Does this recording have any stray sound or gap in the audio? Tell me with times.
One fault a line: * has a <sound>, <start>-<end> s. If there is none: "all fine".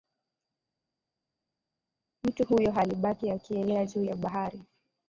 all fine